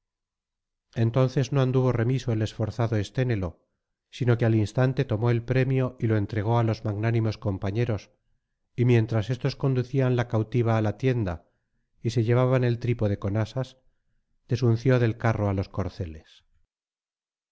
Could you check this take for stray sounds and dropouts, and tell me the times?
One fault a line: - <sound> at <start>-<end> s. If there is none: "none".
none